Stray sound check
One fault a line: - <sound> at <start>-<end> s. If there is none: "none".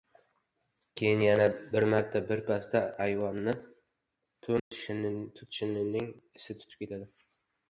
- dropout at 4.6-4.7 s